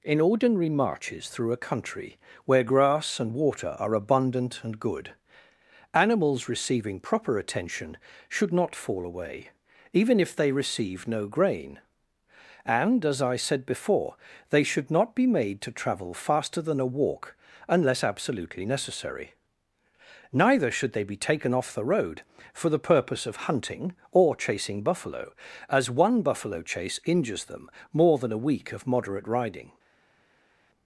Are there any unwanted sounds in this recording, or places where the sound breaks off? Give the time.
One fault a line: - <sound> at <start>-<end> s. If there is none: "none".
none